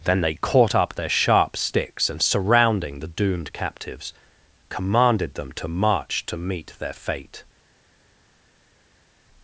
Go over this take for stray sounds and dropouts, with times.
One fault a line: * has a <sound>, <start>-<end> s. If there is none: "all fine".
all fine